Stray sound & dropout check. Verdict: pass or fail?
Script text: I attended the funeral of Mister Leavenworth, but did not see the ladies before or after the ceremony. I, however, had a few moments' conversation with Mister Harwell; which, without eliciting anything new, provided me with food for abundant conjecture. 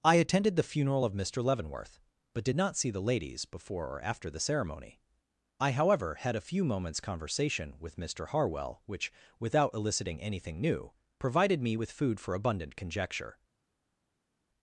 pass